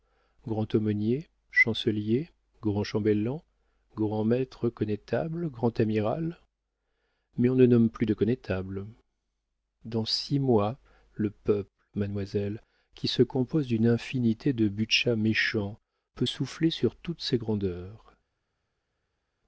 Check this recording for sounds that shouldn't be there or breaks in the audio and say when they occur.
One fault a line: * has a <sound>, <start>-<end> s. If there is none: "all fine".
all fine